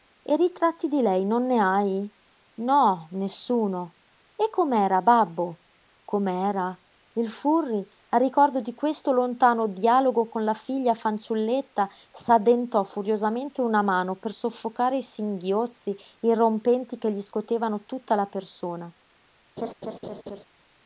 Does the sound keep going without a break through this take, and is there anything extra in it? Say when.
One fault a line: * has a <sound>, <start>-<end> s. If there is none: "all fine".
* has a laugh, 19.6-20.4 s